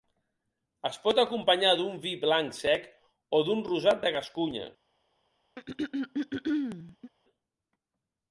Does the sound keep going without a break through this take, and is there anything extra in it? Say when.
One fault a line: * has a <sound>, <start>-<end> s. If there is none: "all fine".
* has a throat clearing, 5.6-7.1 s